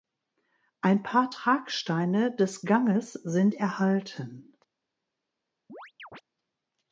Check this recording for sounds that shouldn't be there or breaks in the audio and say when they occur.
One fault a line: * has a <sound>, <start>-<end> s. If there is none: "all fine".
* has a chirp, 5.7-6.2 s